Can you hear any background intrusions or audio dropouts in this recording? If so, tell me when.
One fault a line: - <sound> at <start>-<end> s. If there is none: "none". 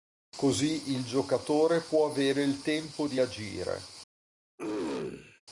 - throat clearing at 4.6-5.4 s